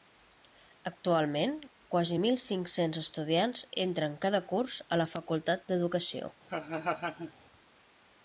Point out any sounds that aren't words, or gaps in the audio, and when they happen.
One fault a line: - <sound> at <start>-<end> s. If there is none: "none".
- laugh at 6.5-7.3 s